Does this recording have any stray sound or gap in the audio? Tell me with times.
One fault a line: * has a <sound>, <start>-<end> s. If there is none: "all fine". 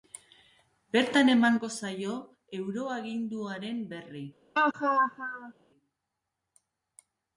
* has a laugh, 4.6-5.5 s